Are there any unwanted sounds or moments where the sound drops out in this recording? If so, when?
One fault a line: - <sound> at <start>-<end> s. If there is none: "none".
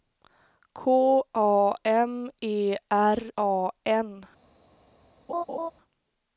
- laugh at 5.3-5.7 s